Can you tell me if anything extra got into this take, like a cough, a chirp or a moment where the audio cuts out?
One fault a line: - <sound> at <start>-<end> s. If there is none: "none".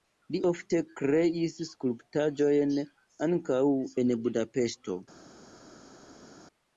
none